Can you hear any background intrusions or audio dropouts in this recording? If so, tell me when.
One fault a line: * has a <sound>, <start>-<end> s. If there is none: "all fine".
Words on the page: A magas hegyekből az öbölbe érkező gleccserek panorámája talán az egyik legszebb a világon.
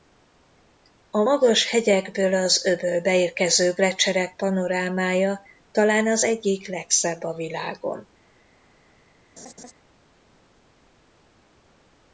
* has a laugh, 9.4-9.7 s